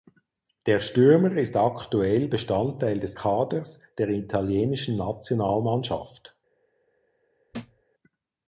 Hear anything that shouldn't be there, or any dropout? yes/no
yes